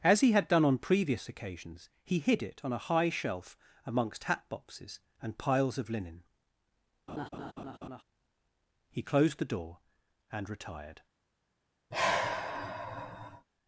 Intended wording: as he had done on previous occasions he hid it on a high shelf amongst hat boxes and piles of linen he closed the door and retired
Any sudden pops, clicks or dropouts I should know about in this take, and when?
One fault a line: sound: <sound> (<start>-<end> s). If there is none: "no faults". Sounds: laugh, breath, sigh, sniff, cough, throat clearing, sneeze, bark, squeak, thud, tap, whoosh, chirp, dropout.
sound: laugh (7.1-8.0 s)
sound: sigh (11.9-13.5 s)